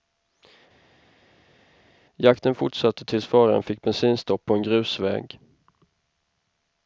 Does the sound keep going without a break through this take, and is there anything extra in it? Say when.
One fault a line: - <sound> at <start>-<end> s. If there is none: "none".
none